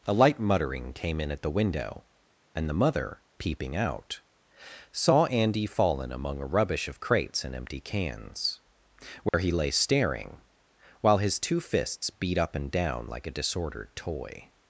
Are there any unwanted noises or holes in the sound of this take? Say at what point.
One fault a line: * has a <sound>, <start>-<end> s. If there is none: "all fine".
* has a dropout, 9.3-9.3 s